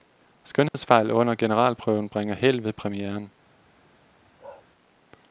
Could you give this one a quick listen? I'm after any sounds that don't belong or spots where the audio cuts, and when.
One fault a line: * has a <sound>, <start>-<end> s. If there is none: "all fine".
* has a dropout, 0.7-0.7 s
* has a bark, 4.4-4.7 s